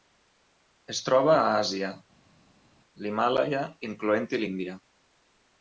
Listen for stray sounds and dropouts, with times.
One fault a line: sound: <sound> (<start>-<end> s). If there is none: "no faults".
no faults